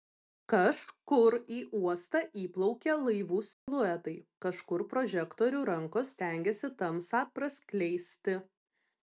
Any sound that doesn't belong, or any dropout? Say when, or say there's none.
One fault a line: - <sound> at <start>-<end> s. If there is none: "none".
- dropout at 3.5-3.7 s